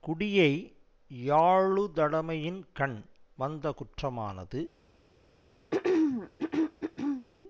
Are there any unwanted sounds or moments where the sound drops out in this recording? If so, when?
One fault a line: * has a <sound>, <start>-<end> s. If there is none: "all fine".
* has a throat clearing, 5.7-7.3 s